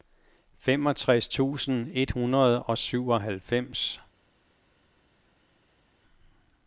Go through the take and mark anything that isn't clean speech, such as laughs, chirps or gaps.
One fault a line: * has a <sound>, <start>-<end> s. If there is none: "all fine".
all fine